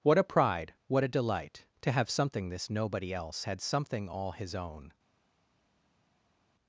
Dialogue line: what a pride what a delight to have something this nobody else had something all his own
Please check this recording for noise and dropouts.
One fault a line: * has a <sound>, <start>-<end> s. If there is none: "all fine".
all fine